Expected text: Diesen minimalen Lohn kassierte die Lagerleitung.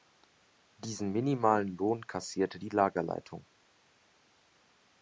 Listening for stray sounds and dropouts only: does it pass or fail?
pass